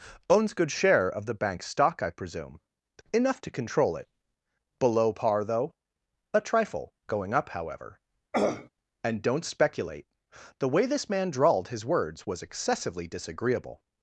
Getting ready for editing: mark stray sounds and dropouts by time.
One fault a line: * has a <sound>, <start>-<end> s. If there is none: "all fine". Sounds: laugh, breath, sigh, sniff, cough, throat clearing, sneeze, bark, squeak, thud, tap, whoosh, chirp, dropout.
* has a throat clearing, 8.3-8.7 s